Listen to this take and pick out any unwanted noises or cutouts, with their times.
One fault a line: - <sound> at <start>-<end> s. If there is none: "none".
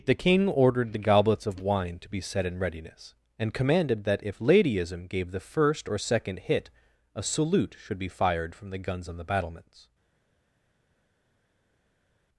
none